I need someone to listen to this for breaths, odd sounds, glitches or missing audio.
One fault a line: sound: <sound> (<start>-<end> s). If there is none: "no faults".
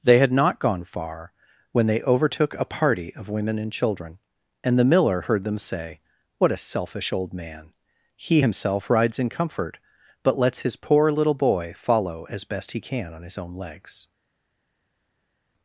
no faults